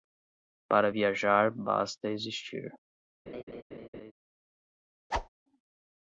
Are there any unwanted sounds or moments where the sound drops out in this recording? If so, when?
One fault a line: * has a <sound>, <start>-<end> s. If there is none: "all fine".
* has a laugh, 3.3-4.1 s
* has a whoosh, 5.1-5.3 s